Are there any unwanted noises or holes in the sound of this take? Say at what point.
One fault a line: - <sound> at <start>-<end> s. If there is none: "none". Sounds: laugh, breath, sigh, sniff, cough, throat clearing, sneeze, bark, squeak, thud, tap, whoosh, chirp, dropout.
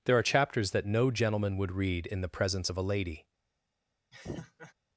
- laugh at 4.1-4.7 s